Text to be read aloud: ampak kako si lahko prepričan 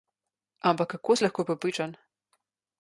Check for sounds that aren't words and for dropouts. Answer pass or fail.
pass